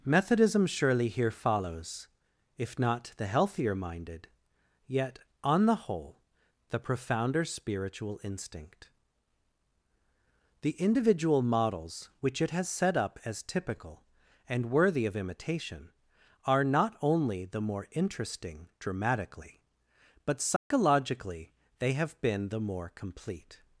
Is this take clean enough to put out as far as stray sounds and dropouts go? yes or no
no